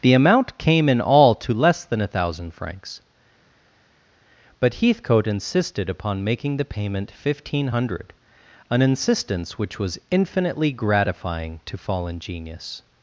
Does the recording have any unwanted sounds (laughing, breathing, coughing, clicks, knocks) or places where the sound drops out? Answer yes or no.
no